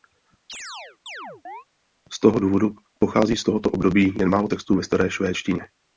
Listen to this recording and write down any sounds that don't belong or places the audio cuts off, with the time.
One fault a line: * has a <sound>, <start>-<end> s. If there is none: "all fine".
* has a chirp, 0.5-1.6 s